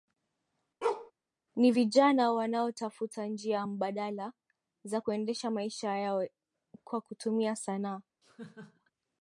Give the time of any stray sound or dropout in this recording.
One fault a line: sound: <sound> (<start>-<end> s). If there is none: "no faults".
sound: bark (0.8-1.1 s)
sound: laugh (8.2-8.9 s)